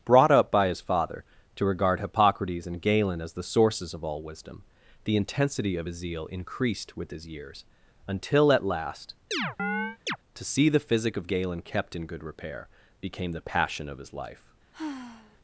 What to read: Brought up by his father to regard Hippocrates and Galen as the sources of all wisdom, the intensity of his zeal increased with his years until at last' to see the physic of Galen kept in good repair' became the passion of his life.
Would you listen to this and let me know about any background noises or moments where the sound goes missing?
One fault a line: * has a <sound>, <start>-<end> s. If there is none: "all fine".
* has a chirp, 9.3-10.2 s
* has a sigh, 14.7-15.4 s